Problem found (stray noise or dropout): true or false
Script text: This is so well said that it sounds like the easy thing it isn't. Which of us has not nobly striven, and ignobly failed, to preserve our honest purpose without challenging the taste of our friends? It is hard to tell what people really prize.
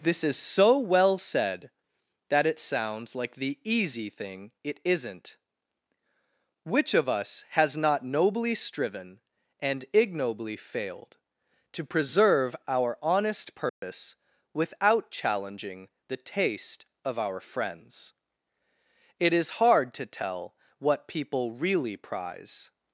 true